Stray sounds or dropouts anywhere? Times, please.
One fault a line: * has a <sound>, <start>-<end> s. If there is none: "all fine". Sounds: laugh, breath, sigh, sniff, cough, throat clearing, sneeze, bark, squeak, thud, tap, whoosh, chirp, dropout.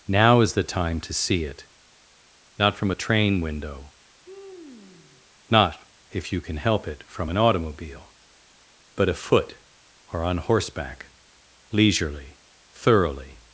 * has a sigh, 4.2-5.3 s